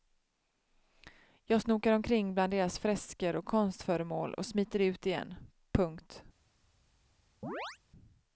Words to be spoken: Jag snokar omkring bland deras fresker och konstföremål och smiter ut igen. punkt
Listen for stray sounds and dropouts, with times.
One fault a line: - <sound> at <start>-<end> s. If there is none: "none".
- chirp at 7.4-7.8 s